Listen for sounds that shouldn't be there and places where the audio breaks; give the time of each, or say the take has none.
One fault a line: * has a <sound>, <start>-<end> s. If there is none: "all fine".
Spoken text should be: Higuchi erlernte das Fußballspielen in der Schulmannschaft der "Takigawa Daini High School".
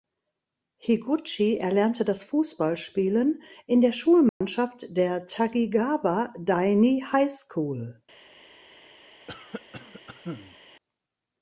* has a dropout, 4.3-4.4 s
* has a cough, 9.3-10.6 s